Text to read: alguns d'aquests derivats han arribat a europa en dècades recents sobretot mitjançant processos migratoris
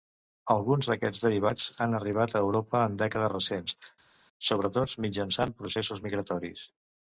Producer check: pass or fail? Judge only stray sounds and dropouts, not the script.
pass